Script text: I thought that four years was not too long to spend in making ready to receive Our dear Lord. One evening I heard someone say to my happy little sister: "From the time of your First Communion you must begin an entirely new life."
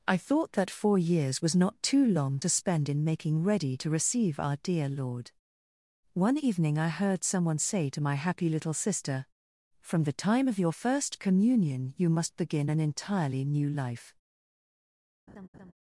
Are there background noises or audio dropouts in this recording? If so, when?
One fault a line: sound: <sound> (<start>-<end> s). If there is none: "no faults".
sound: laugh (15.3-15.7 s)